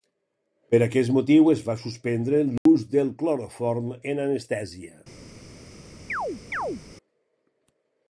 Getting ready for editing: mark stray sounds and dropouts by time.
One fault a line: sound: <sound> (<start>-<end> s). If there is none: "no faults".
sound: dropout (2.6-2.7 s)
sound: chirp (6.1-6.8 s)